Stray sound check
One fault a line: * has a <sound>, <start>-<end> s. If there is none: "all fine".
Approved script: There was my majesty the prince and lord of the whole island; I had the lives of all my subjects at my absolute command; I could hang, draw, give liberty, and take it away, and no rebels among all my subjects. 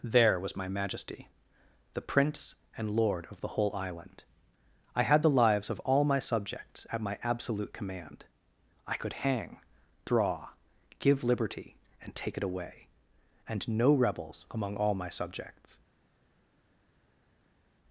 all fine